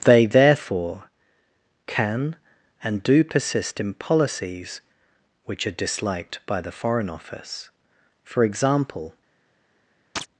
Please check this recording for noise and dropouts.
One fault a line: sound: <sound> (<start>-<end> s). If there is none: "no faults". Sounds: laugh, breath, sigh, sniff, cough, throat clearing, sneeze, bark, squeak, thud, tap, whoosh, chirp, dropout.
sound: chirp (10.2-10.3 s)